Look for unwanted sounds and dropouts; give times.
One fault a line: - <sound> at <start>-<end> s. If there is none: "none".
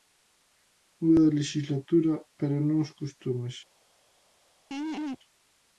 - laugh at 4.7-5.2 s